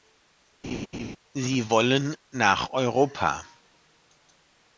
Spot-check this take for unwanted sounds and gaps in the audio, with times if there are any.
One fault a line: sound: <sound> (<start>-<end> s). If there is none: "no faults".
sound: laugh (0.6-1.2 s)